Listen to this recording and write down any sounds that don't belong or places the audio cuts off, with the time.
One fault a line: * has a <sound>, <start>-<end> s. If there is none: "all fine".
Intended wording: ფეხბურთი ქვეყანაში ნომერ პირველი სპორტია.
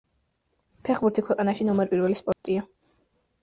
* has a dropout, 2.3-2.4 s